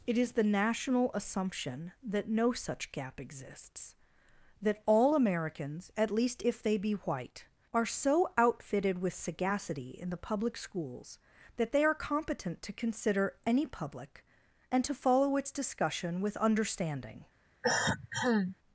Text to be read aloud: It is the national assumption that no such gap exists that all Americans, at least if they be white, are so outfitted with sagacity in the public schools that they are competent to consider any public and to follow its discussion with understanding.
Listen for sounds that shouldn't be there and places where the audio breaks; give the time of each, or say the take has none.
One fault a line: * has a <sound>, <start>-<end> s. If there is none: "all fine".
* has a cough, 17.6-18.6 s